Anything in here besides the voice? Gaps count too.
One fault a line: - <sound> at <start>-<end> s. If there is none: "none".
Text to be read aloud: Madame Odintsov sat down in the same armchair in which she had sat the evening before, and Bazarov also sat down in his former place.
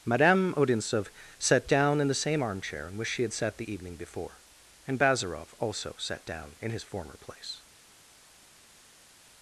none